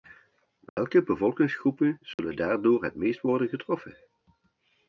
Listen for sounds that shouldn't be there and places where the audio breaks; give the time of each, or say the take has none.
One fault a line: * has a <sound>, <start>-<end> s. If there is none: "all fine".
* has a dropout, 0.7-0.8 s
* has a dropout, 2.1-2.2 s